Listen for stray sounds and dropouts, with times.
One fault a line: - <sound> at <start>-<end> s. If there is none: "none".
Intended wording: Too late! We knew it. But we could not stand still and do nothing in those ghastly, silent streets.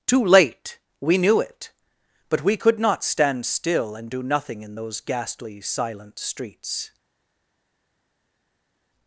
none